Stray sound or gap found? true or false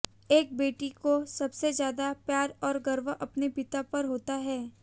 false